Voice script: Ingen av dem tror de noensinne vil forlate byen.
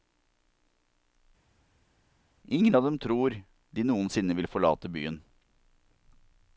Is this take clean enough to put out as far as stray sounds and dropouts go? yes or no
yes